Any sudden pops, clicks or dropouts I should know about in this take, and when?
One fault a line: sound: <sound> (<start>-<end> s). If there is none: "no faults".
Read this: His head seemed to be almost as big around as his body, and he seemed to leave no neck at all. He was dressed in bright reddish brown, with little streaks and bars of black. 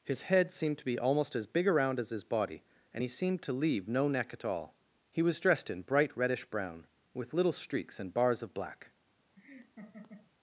sound: laugh (9.4-10.3 s)